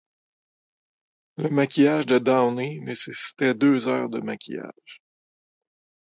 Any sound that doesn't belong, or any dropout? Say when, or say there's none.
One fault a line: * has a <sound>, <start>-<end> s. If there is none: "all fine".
all fine